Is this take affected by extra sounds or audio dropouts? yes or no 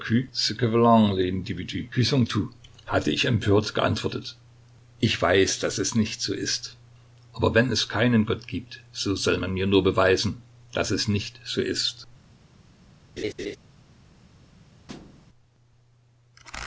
yes